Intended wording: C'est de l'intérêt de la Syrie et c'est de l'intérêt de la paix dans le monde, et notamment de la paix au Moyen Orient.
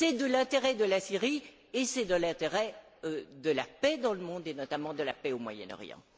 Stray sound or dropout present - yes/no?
no